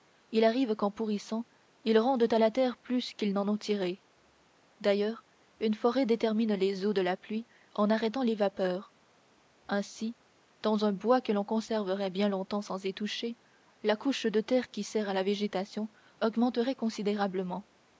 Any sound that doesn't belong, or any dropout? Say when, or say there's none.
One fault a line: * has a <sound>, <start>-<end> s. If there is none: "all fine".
all fine